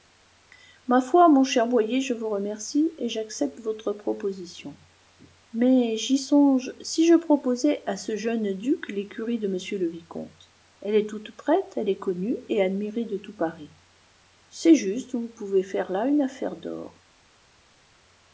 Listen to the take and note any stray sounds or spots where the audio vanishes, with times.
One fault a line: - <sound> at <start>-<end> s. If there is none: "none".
none